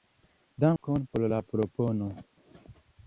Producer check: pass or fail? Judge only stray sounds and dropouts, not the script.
fail